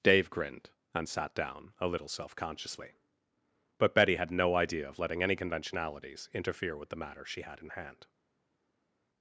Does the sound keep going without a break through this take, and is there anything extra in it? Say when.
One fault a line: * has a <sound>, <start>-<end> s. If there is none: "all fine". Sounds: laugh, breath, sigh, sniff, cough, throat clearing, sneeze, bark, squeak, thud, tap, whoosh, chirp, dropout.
all fine